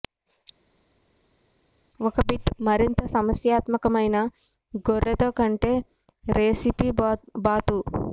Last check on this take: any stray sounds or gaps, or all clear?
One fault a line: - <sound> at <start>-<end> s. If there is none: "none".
none